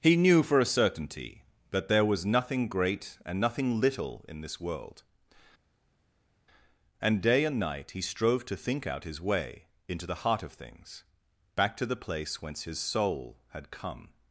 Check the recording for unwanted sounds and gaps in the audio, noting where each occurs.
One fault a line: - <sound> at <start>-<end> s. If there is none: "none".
none